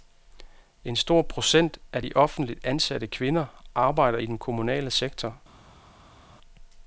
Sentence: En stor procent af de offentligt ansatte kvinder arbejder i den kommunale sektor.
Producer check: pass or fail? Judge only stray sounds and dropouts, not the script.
pass